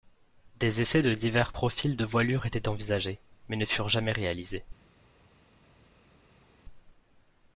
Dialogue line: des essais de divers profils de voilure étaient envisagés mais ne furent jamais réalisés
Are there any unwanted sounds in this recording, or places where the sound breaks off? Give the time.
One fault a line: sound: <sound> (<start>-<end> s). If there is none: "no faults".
no faults